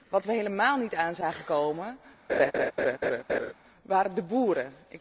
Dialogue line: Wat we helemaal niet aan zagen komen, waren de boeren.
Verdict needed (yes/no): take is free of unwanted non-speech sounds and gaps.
no